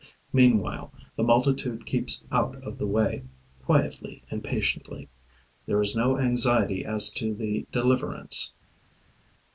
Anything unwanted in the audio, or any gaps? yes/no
no